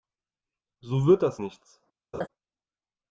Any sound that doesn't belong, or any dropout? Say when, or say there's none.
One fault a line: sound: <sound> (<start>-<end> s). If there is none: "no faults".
sound: laugh (2.1-2.3 s)